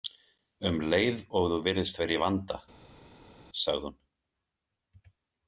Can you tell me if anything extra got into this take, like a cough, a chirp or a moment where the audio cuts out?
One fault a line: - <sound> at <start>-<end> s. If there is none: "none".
none